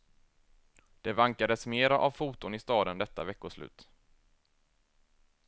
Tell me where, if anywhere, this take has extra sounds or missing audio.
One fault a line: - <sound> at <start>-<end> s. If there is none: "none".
none